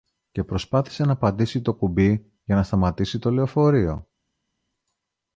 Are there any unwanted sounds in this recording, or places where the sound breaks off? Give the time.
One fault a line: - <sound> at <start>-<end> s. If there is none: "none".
none